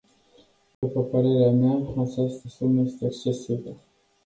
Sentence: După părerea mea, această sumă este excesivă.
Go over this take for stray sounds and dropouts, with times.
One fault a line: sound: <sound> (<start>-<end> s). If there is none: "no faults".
sound: dropout (0.7-0.8 s)